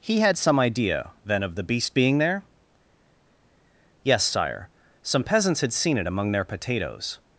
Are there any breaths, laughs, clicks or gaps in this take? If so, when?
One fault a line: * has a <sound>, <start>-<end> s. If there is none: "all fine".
all fine